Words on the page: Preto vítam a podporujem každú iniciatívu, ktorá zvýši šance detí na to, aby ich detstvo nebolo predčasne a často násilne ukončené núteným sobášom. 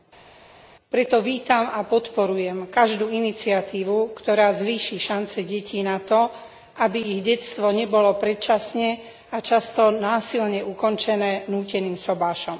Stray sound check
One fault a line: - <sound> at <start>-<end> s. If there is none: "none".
none